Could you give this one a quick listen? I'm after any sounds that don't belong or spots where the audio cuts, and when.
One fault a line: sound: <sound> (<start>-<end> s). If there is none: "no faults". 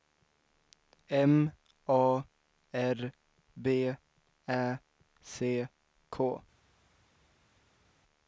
no faults